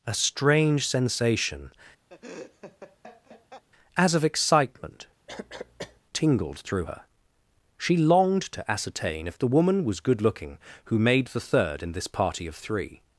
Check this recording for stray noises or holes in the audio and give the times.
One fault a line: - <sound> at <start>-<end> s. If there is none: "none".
- laugh at 2.1-3.6 s
- cough at 5.3-6.0 s